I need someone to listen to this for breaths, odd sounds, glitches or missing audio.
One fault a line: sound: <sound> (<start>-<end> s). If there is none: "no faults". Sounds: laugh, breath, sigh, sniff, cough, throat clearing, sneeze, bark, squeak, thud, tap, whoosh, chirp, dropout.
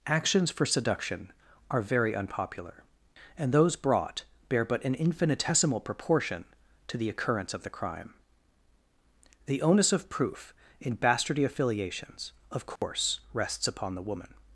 sound: dropout (12.8-12.8 s)